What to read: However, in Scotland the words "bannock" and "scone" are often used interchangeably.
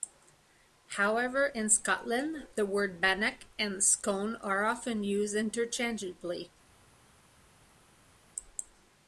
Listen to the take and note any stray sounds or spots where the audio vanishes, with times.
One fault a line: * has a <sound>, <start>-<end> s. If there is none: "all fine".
all fine